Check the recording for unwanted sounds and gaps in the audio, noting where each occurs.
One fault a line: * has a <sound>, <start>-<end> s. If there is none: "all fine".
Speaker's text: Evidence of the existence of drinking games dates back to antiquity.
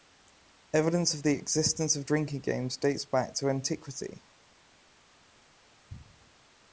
all fine